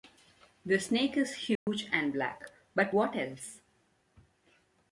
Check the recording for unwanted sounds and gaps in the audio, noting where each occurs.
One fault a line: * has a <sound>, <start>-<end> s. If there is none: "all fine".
* has a dropout, 1.6-1.7 s